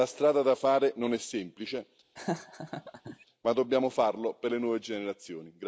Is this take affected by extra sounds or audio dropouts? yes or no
yes